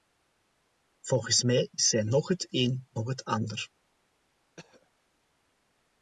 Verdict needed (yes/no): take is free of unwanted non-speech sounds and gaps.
no